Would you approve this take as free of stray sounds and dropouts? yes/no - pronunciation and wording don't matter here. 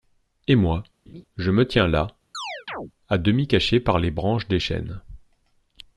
no